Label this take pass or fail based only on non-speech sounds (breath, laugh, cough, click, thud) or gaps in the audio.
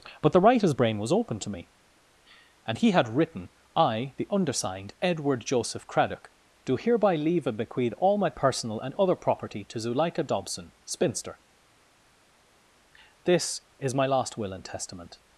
pass